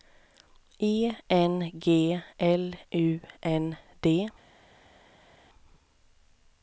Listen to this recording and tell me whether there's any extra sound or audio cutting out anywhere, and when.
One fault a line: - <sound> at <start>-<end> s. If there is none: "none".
none